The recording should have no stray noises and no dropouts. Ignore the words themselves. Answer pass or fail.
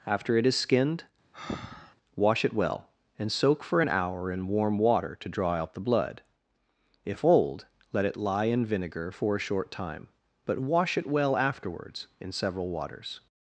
fail